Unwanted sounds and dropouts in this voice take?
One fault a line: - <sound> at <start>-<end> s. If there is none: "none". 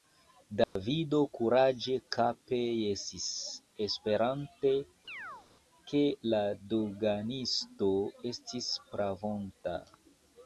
- dropout at 0.6-0.8 s
- chirp at 5.1-5.5 s